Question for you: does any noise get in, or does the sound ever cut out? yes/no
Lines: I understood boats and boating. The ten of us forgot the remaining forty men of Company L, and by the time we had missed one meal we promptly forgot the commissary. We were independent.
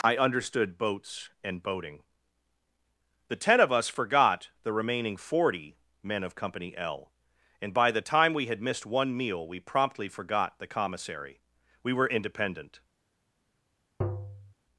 yes